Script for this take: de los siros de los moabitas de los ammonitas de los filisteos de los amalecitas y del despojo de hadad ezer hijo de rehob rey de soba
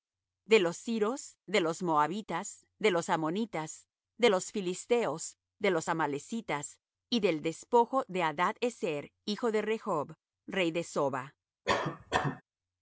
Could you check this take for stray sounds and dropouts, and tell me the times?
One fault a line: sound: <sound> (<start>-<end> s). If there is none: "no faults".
sound: cough (11.6-12.4 s)